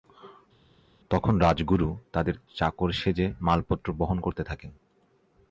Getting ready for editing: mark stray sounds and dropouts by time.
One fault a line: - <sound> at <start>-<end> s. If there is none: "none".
none